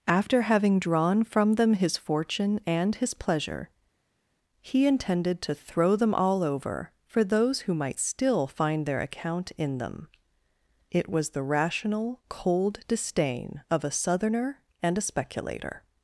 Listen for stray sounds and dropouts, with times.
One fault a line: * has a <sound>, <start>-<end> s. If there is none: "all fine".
all fine